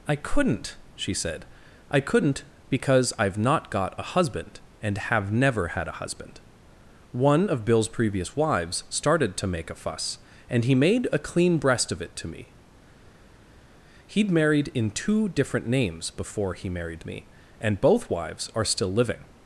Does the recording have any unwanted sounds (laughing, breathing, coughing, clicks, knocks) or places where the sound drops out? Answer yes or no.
no